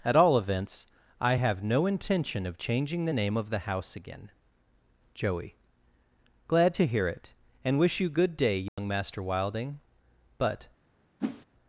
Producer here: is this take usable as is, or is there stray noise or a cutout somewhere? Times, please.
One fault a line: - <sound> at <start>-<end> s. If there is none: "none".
- dropout at 8.7-8.8 s
- whoosh at 11.2-11.4 s